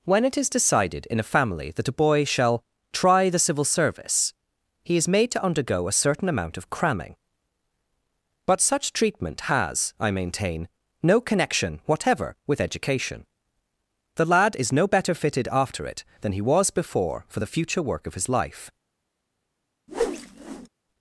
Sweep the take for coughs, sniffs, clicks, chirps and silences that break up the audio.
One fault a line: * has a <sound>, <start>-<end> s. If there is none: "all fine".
* has a whoosh, 19.9-20.7 s